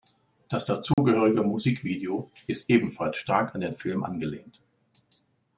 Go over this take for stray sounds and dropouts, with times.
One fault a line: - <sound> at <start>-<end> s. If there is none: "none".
- dropout at 0.9-1.0 s